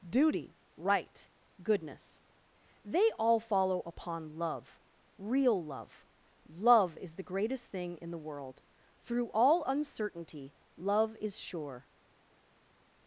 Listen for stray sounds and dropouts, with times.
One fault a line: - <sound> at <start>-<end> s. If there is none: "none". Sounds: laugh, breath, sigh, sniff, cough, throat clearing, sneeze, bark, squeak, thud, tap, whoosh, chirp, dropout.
none